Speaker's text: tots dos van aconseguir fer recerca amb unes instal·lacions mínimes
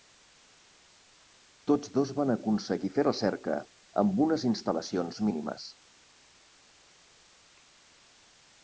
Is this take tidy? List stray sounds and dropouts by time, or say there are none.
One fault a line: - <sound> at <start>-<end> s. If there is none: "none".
none